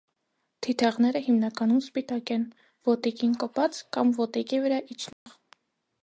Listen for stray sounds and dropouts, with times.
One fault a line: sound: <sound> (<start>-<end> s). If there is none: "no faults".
sound: dropout (5.1-5.3 s)